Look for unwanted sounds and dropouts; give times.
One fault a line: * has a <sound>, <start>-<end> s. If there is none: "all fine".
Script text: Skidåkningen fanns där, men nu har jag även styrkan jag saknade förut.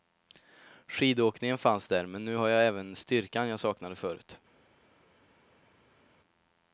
all fine